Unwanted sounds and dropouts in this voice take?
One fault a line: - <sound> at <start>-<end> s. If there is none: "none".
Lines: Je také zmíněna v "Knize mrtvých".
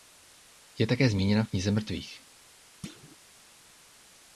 - thud at 2.8-3.2 s